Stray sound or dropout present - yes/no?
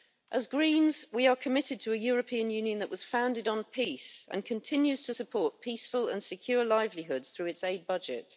no